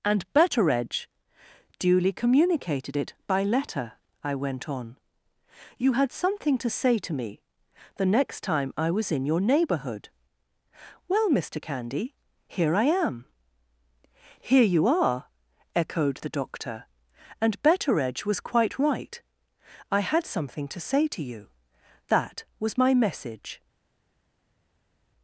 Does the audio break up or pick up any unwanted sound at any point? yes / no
no